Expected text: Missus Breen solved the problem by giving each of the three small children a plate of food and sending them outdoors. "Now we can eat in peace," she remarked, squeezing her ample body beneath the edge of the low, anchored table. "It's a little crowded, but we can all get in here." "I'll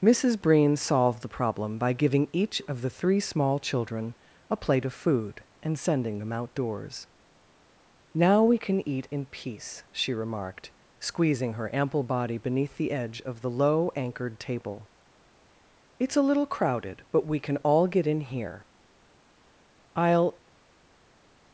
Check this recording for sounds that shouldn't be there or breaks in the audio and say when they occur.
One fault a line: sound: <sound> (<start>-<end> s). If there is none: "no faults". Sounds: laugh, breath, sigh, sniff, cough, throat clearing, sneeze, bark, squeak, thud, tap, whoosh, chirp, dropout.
no faults